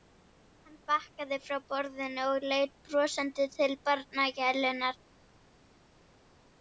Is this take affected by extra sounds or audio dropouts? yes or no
no